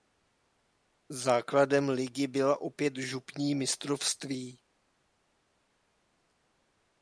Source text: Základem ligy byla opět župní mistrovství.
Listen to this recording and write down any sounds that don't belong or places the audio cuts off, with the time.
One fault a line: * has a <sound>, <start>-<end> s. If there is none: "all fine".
all fine